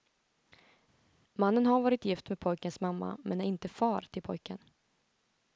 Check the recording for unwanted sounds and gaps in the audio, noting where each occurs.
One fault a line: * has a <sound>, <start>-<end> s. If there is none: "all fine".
all fine